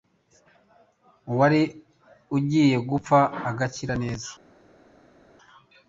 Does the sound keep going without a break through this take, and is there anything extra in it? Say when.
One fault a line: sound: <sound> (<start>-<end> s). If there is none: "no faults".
no faults